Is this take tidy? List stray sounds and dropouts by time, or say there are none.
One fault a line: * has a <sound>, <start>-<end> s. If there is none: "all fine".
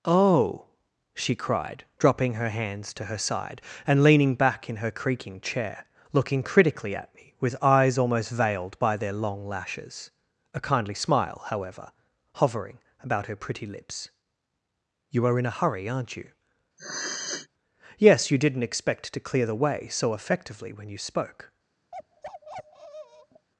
* has a sniff, 16.8-17.5 s
* has a bark, 21.9-23.5 s